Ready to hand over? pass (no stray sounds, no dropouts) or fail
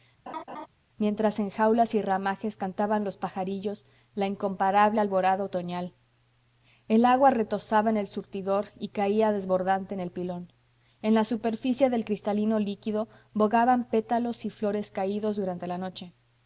fail